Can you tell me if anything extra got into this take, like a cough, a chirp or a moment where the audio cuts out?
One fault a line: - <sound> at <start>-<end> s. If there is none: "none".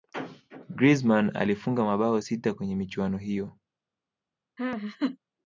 - laugh at 4.6-5.2 s